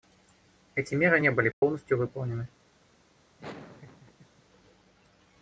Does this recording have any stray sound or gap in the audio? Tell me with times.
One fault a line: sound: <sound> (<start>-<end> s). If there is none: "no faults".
sound: dropout (1.5-1.6 s)
sound: laugh (3.4-4.4 s)